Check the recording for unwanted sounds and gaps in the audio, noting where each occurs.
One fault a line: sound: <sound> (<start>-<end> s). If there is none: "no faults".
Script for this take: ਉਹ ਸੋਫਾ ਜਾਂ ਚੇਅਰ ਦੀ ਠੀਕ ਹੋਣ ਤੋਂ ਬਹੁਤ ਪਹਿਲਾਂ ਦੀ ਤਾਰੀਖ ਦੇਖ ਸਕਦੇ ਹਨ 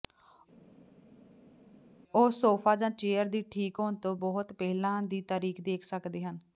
no faults